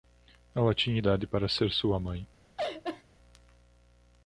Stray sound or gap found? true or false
true